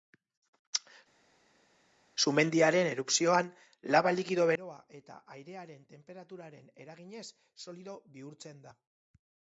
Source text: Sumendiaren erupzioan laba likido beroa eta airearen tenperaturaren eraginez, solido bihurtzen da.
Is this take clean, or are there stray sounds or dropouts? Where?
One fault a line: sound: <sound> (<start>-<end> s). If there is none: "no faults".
no faults